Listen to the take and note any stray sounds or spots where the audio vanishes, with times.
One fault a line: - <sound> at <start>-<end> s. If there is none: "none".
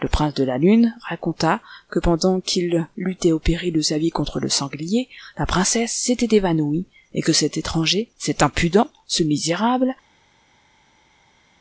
none